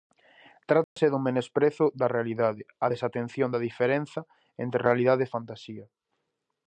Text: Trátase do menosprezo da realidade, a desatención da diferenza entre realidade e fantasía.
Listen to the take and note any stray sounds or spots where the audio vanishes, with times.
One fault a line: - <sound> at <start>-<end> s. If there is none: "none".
- dropout at 0.8-1.0 s